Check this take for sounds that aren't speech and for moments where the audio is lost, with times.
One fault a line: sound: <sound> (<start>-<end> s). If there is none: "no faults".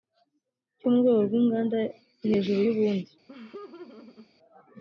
sound: laugh (3.3-4.3 s)